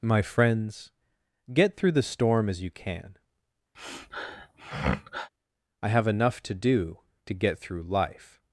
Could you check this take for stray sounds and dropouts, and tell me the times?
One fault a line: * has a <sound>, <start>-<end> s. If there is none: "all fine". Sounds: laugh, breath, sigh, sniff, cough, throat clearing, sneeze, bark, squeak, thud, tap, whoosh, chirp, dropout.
* has a sniff, 3.7-5.3 s